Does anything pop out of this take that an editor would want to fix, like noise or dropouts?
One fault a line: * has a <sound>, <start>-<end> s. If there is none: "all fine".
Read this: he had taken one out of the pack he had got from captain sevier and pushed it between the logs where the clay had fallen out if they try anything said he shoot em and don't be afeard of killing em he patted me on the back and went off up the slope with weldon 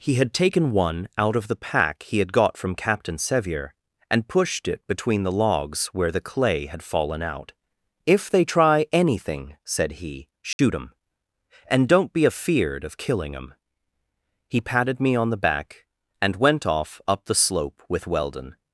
* has a dropout, 10.5-10.6 s